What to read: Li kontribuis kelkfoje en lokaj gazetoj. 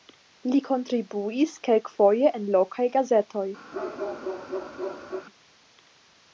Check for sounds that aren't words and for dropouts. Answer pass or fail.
fail